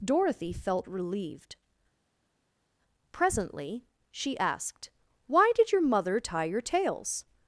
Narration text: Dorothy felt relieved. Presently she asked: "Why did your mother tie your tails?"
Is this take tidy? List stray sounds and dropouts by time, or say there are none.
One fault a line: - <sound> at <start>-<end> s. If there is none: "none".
none